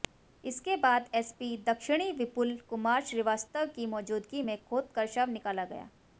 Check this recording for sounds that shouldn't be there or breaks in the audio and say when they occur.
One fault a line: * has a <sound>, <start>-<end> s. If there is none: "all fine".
all fine